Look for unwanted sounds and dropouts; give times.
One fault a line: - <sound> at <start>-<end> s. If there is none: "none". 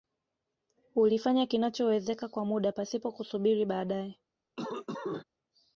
- cough at 4.6-5.2 s